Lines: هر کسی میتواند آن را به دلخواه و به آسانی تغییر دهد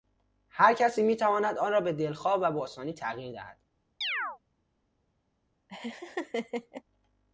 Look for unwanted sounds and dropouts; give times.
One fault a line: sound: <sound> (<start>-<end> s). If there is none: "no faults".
sound: chirp (4.0-4.4 s)
sound: laugh (5.7-6.8 s)